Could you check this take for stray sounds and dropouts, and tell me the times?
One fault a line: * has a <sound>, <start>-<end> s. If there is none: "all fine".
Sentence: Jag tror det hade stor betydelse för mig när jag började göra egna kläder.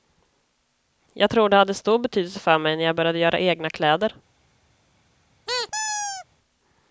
* has a squeak, 5.5-6.3 s